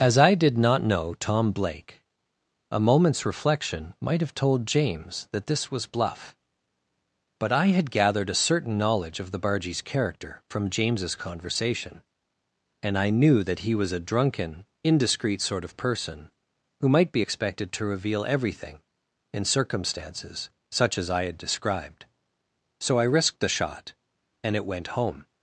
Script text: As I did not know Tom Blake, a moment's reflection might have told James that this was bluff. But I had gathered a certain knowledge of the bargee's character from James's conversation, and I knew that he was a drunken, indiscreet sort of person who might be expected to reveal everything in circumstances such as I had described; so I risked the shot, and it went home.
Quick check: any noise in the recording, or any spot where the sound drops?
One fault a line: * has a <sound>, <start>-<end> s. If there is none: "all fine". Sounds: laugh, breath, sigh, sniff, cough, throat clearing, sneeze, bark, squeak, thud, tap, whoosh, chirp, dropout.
all fine